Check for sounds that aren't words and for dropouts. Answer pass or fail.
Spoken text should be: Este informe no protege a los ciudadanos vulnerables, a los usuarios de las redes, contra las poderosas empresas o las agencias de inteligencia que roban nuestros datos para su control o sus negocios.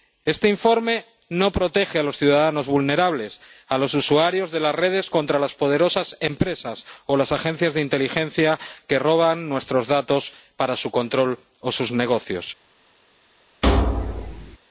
fail